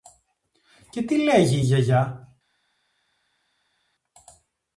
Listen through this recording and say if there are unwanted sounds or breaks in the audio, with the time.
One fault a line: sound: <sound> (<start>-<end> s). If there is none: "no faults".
no faults